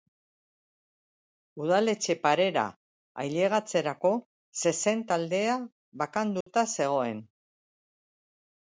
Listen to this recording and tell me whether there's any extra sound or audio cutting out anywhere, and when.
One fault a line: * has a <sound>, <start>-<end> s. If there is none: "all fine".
* has a dropout, 6.4-6.5 s